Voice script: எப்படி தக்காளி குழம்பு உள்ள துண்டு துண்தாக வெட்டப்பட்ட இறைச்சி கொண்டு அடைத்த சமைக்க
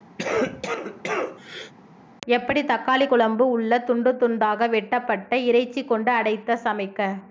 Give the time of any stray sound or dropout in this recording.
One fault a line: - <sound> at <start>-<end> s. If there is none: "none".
- cough at 0.2-1.7 s